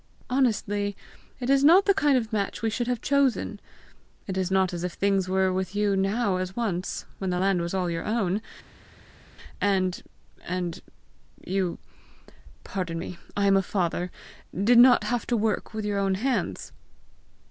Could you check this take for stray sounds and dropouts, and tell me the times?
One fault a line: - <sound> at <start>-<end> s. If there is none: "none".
none